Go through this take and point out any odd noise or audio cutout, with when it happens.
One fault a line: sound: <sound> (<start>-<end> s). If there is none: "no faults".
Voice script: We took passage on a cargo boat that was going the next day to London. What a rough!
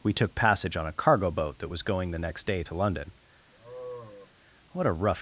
sound: sigh (3.5-4.3 s)